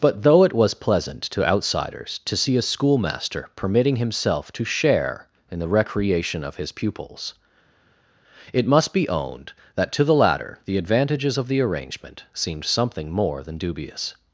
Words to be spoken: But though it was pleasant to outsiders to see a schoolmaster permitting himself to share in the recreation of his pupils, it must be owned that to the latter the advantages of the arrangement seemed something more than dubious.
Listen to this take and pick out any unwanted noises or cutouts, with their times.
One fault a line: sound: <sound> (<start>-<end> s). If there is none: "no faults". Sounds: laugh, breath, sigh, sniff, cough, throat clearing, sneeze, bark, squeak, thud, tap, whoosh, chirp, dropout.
no faults